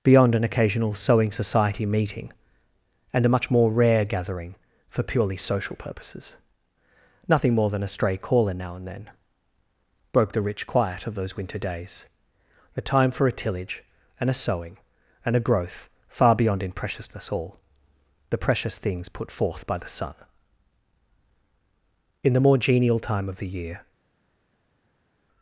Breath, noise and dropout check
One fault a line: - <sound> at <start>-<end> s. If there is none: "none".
none